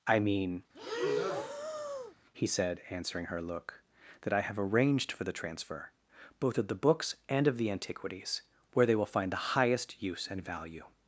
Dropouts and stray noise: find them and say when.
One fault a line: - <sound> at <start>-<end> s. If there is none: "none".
- breath at 0.7-2.1 s